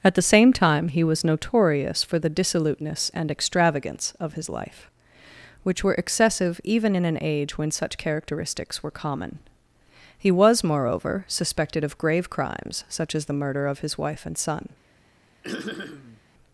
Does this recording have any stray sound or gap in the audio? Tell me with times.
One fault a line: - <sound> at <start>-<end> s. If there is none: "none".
- throat clearing at 15.4-16.2 s